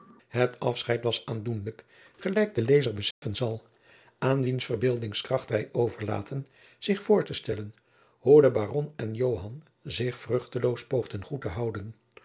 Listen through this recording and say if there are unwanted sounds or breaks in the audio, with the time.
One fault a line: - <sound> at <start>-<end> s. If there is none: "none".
- dropout at 3.1-3.2 s